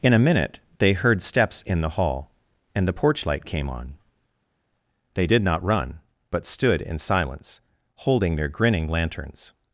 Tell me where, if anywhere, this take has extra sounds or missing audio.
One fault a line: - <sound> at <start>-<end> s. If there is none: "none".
none